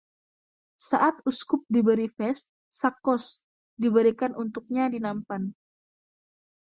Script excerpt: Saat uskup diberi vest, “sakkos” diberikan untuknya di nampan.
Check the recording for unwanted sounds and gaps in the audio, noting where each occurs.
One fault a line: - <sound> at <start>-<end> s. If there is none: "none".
none